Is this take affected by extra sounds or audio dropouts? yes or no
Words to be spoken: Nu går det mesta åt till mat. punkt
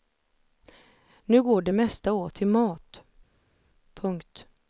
no